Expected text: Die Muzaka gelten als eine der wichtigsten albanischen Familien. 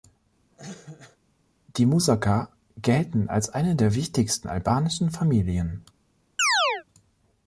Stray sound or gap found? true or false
true